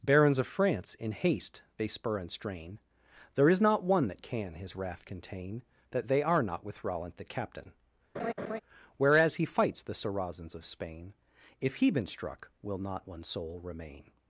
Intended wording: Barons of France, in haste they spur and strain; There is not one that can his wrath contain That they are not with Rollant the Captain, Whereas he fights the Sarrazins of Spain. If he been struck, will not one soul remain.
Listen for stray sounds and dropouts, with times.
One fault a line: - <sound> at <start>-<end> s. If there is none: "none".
- laugh at 8.1-8.6 s